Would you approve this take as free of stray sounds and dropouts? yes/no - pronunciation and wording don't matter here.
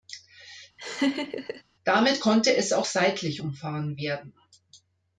no